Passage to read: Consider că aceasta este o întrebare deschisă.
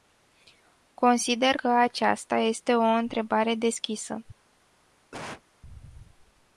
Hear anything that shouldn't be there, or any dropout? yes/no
yes